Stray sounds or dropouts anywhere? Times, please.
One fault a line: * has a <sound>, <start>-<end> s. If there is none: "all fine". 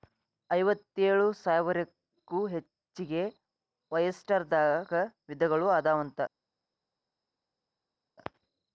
all fine